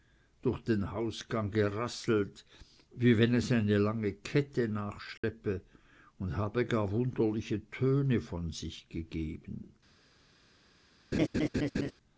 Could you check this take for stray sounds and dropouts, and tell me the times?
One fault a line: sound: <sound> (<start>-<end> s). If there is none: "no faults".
sound: dropout (5.2-5.2 s)
sound: laugh (11.1-11.9 s)